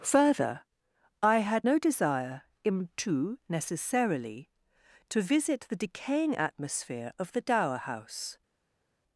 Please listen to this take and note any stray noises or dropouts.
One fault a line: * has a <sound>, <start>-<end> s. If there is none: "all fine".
all fine